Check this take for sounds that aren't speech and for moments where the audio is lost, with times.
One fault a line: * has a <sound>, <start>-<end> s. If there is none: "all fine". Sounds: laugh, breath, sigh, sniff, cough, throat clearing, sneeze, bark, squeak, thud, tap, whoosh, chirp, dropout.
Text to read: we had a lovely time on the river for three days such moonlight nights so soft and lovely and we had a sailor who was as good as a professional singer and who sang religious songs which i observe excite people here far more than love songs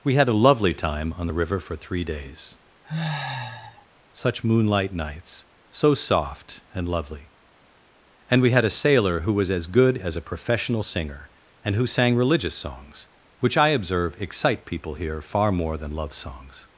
* has a sniff, 2.8-3.9 s